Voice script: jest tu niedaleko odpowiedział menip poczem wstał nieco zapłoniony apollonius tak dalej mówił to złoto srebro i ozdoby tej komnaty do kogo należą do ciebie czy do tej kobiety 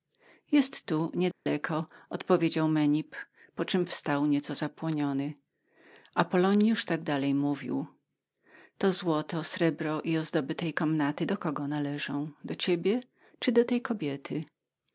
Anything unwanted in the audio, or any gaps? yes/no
yes